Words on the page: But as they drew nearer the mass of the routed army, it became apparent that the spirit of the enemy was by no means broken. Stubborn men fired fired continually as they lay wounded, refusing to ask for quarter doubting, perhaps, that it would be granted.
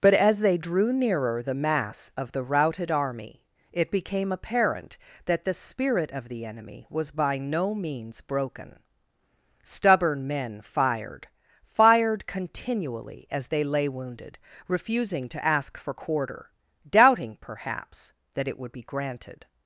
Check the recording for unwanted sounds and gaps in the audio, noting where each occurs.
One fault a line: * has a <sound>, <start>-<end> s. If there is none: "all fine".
all fine